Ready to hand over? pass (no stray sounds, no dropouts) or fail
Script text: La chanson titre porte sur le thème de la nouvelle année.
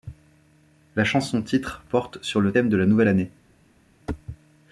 pass